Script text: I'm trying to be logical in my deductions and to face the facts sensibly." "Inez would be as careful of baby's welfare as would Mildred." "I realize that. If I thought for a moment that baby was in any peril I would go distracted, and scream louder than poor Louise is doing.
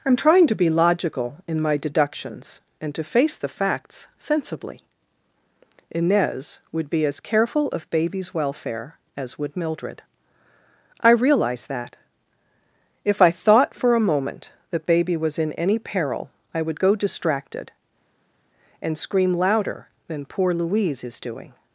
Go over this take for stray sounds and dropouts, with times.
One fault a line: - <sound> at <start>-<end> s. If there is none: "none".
none